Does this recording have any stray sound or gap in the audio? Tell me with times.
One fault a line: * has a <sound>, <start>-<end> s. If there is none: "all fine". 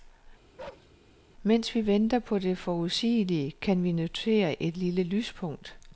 * has a bark, 0.6-0.9 s